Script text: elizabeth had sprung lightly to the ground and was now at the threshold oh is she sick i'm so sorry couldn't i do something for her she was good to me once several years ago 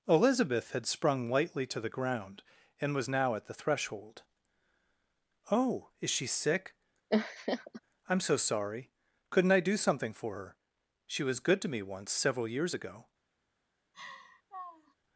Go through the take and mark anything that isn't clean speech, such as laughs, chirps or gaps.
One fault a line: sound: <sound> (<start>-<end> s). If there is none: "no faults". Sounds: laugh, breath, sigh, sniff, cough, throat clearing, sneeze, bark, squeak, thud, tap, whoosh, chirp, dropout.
sound: laugh (7.1-7.8 s)
sound: laugh (13.9-14.9 s)